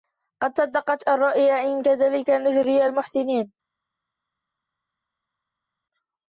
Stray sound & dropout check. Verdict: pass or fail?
pass